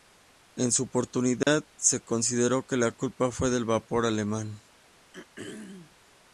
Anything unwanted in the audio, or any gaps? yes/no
yes